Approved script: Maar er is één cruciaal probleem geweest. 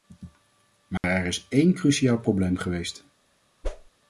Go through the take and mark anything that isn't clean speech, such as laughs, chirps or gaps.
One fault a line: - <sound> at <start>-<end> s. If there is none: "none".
- dropout at 1.0-1.0 s
- whoosh at 3.6-3.9 s